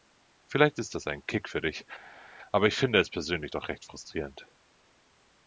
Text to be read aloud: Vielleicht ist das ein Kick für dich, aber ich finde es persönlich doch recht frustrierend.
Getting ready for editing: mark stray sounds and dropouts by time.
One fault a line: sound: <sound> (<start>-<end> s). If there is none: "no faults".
no faults